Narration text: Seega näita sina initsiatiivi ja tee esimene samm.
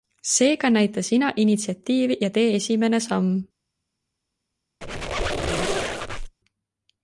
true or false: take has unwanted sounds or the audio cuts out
true